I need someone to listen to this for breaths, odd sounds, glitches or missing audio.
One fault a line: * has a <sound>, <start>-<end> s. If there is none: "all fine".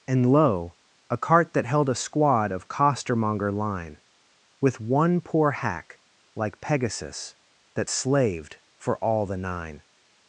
all fine